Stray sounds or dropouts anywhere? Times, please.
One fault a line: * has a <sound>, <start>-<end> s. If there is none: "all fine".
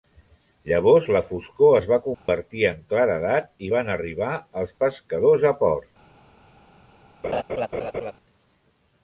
* has a dropout, 2.1-2.3 s
* has a laugh, 7.2-8.1 s